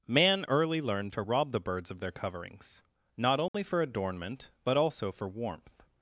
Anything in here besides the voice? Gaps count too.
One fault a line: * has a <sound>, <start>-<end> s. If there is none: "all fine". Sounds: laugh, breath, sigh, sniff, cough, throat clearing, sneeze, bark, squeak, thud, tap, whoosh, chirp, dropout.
* has a dropout, 3.5-3.5 s